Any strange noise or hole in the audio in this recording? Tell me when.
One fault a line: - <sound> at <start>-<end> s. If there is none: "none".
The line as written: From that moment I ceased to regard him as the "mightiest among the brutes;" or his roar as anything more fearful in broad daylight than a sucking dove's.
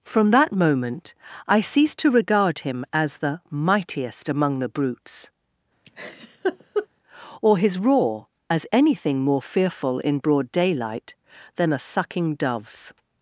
- laugh at 5.9-6.9 s